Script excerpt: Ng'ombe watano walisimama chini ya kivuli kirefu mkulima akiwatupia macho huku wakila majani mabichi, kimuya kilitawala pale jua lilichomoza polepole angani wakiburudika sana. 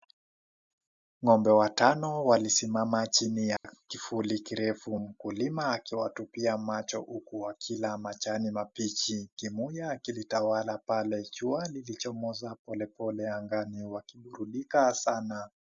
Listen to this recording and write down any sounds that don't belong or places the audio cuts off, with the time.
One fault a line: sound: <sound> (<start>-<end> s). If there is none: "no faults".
sound: dropout (3.6-3.6 s)